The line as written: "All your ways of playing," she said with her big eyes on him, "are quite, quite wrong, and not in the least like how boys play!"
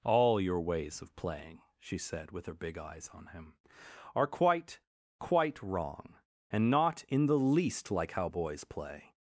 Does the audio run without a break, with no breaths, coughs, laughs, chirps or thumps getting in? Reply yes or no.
yes